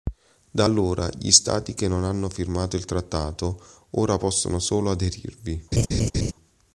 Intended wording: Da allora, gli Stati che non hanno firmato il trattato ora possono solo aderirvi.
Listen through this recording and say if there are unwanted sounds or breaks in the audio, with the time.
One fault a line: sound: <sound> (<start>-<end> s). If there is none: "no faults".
sound: laugh (5.7-6.3 s)